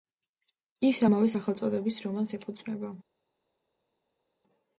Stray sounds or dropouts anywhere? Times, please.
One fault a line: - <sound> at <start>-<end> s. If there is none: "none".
none